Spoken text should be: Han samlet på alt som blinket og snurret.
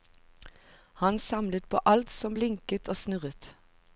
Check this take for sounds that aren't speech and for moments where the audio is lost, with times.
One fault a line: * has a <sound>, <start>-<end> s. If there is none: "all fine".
all fine